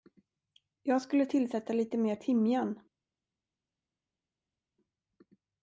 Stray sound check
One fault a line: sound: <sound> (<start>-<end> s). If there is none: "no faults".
no faults